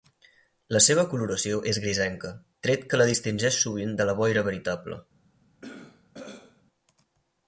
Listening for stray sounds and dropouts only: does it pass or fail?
fail